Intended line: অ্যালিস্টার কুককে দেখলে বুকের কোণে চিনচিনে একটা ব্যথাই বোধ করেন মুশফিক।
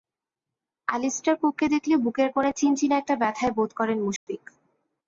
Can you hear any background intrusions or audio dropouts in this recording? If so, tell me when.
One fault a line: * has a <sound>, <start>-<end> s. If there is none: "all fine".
* has a dropout, 4.2-4.3 s